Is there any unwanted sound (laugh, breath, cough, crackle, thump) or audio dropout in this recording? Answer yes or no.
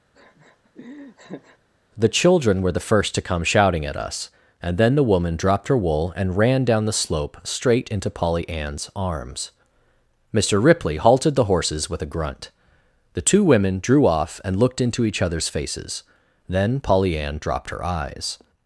yes